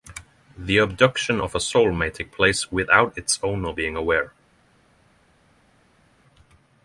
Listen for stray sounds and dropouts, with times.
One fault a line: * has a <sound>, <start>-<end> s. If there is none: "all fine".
all fine